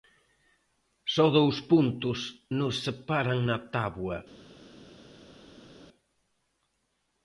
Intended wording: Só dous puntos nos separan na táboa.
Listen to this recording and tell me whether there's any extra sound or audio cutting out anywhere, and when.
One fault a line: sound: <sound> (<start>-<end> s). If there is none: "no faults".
no faults